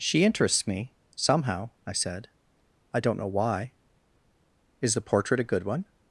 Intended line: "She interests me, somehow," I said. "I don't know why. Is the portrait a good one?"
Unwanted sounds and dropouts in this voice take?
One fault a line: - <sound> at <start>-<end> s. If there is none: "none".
none